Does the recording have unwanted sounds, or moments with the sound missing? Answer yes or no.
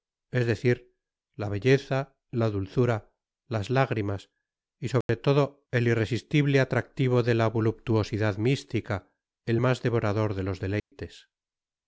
yes